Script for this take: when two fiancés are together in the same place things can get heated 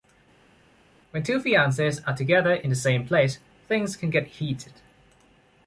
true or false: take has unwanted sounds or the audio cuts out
false